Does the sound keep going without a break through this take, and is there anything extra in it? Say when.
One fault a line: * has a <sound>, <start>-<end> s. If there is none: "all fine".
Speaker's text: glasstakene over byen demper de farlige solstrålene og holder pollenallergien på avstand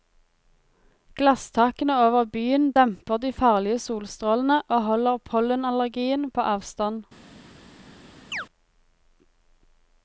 * has a chirp, 8.3-8.5 s